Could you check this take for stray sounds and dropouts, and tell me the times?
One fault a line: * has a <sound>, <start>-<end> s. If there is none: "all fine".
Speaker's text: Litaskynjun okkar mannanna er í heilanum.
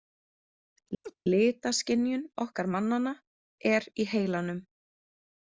* has a laugh, 1.0-1.1 s